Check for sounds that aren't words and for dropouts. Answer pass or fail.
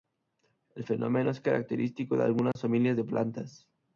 fail